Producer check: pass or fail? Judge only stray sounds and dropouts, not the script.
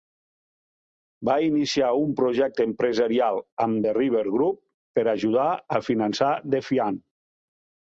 pass